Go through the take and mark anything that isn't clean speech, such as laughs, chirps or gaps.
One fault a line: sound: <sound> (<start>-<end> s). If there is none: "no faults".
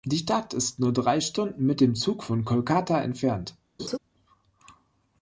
sound: laugh (3.8-4.0 s)